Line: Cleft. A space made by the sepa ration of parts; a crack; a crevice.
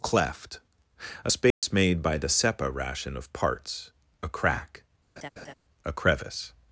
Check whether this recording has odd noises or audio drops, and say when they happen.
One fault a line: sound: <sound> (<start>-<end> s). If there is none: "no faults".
sound: dropout (1.5-1.6 s)
sound: laugh (5.2-5.5 s)